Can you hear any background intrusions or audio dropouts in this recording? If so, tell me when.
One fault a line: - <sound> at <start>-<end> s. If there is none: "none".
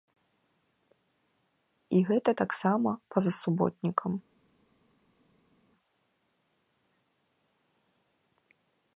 none